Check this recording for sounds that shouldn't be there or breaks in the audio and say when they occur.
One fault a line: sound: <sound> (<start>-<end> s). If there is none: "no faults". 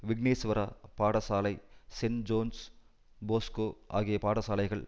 no faults